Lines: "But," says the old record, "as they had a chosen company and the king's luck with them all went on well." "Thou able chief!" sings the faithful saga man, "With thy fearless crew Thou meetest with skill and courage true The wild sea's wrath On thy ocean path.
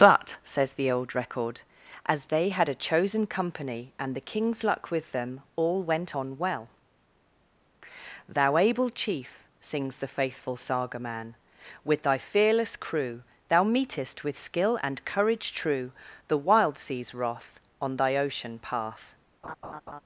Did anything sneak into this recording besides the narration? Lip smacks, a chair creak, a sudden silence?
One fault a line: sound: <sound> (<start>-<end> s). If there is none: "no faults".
sound: laugh (19.4-20.0 s)